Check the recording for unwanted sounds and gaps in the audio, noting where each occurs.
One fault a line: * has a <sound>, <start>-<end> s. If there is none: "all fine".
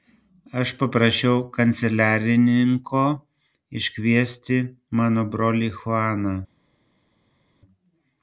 all fine